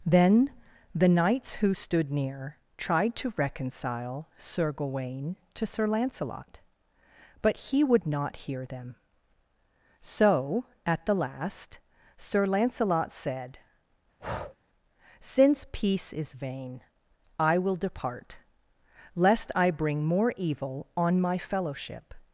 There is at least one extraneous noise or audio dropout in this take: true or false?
true